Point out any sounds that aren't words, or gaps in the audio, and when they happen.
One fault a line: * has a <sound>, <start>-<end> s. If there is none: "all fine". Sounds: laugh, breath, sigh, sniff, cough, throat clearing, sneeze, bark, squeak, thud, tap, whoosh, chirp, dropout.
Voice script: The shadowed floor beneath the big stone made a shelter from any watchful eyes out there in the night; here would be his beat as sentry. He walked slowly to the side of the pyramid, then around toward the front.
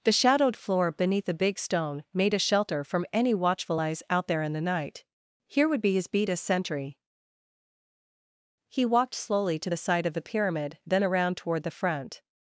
all fine